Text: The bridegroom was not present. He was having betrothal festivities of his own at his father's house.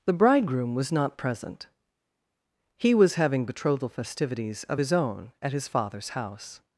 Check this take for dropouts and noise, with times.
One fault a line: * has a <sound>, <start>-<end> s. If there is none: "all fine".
all fine